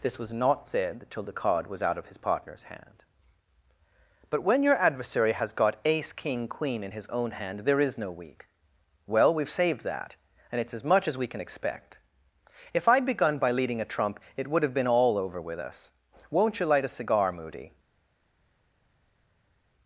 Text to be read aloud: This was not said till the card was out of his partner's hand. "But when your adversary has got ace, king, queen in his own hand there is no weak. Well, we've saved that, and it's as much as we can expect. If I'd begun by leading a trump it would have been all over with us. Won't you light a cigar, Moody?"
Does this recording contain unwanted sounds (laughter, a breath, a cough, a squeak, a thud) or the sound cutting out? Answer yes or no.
no